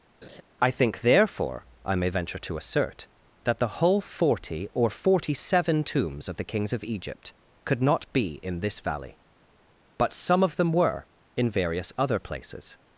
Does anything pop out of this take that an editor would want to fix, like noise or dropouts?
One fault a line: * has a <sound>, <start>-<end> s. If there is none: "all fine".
* has a laugh, 0.2-0.4 s